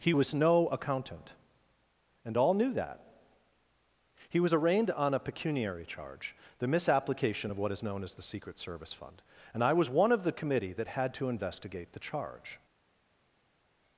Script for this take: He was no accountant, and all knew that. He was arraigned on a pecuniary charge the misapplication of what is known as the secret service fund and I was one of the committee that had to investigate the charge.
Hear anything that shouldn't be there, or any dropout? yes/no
no